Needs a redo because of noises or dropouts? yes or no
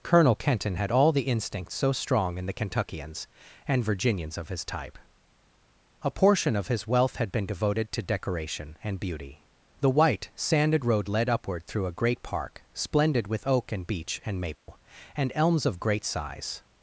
yes